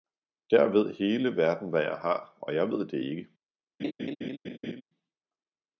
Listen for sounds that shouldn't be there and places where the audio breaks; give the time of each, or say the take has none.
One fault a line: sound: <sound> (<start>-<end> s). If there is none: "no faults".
sound: laugh (3.8-4.8 s)